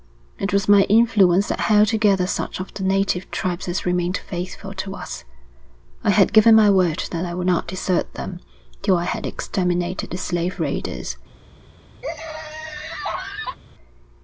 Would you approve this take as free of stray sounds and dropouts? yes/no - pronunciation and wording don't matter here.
no